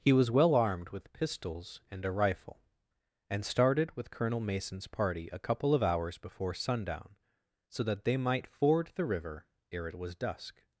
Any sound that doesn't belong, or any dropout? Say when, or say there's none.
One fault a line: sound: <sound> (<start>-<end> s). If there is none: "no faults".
no faults